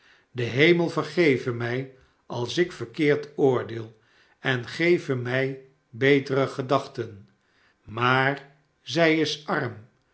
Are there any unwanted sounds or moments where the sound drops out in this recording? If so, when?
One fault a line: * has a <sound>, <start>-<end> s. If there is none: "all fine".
all fine